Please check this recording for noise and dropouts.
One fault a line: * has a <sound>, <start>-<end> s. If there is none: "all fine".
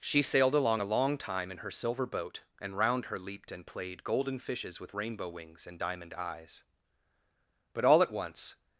all fine